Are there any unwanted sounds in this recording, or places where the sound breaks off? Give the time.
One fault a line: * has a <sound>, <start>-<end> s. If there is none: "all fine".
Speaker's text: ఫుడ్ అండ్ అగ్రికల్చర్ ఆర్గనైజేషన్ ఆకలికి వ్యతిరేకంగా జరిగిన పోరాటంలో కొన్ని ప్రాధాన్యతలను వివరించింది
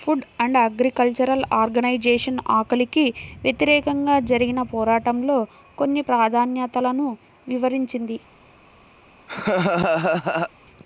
* has a laugh, 9.3-10.5 s